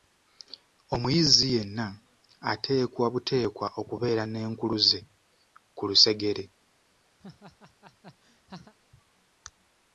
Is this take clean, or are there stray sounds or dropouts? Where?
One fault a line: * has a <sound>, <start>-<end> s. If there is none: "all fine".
* has a laugh, 7.2-8.7 s